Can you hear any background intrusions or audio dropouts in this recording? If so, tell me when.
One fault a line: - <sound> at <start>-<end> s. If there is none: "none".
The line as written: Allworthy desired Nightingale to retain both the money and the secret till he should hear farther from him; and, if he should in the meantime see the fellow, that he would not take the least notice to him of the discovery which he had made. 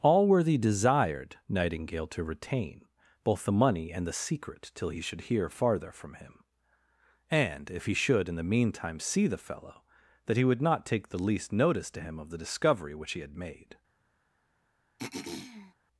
- throat clearing at 15.0-15.7 s